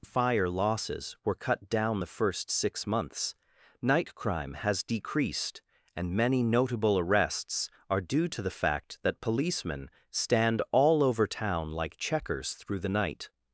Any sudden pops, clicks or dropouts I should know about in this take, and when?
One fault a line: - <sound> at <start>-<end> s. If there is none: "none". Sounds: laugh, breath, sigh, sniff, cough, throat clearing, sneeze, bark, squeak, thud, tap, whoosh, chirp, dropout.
none